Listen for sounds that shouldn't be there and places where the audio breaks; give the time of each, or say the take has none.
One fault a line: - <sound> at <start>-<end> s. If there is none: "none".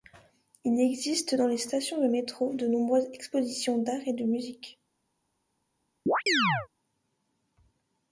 - chirp at 6.1-6.7 s